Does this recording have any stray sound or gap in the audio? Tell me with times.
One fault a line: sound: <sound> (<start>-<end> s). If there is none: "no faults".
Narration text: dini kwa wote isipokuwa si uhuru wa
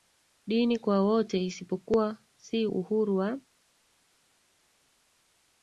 no faults